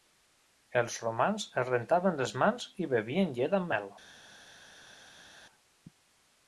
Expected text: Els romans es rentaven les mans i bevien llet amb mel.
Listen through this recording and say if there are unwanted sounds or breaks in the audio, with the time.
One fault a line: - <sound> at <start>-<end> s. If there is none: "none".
none